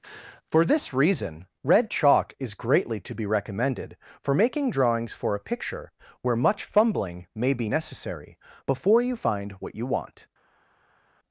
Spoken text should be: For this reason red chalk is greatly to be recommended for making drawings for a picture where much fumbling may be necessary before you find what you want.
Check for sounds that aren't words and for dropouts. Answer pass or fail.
pass